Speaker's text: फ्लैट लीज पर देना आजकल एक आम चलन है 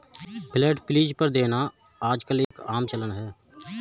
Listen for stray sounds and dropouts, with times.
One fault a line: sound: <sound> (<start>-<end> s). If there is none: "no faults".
sound: dropout (2.4-2.5 s)